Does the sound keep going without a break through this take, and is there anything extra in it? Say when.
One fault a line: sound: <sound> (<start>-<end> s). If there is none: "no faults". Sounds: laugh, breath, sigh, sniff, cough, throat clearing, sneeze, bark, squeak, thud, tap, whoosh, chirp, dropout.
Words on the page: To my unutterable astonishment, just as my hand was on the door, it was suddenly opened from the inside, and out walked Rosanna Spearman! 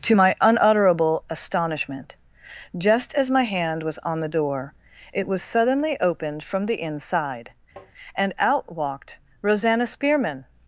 sound: tap (7.8-7.9 s)